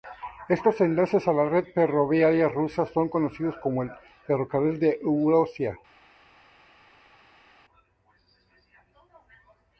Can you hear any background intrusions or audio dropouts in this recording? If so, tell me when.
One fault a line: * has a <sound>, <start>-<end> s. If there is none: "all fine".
all fine